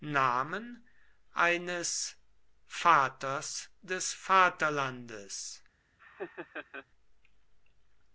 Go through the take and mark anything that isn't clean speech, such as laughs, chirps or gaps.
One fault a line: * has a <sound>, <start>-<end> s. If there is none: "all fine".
* has a laugh, 6.0-6.9 s